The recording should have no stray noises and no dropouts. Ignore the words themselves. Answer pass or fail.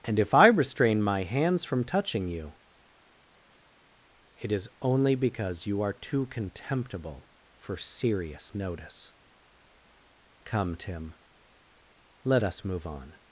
pass